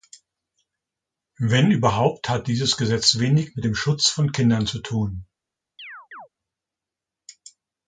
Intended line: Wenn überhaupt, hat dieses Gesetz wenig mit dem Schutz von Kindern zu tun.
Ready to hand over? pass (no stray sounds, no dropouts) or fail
fail